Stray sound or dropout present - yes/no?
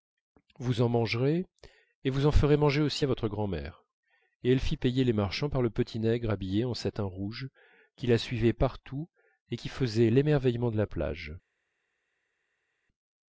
no